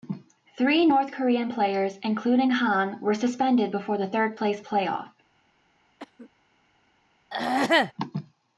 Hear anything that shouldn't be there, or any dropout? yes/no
yes